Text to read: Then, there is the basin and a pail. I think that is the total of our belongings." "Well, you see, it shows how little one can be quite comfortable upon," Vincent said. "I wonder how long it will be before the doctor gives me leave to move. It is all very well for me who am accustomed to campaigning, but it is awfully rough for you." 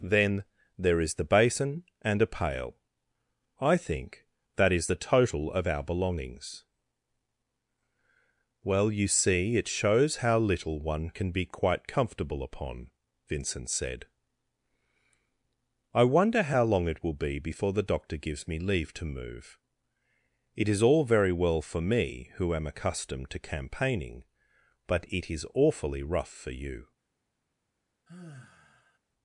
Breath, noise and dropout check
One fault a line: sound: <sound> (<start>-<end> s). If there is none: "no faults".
sound: sigh (28.1-29.0 s)